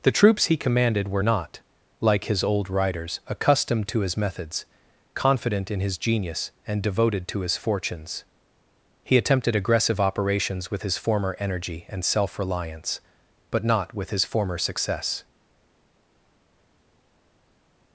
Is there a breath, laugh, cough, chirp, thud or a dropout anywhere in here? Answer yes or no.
no